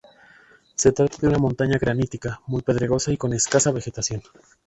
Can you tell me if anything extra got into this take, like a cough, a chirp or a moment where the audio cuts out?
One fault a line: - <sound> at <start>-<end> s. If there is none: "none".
none